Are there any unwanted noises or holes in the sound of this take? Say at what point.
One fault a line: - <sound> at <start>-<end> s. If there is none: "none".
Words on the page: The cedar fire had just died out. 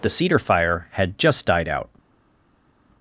none